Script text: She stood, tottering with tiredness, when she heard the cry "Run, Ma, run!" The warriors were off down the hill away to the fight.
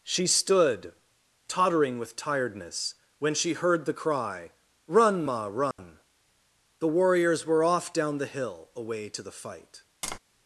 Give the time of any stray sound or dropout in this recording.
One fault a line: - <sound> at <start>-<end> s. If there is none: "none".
- dropout at 5.7-5.8 s
- tap at 10.0-10.2 s